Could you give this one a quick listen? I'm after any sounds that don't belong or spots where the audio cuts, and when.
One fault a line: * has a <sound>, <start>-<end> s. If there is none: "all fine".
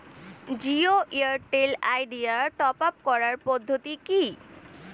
all fine